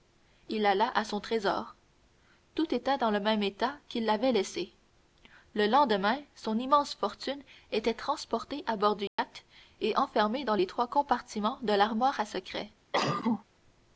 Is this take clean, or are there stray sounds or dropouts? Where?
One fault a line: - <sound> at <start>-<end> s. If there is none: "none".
- dropout at 9.1-9.2 s
- cough at 12.9-13.4 s